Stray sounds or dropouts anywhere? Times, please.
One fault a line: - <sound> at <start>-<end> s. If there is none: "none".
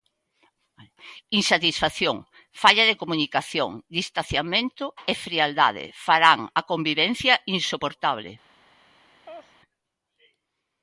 - laugh at 9.3-9.5 s